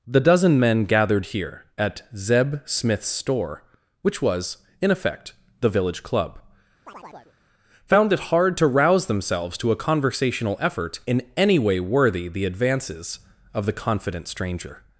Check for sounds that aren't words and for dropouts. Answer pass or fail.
fail